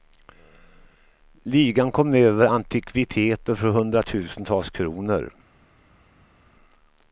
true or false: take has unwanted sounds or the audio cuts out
false